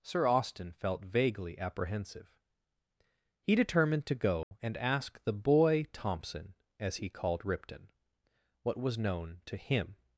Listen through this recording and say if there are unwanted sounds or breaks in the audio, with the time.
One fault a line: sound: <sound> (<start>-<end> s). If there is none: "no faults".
sound: dropout (4.4-4.5 s)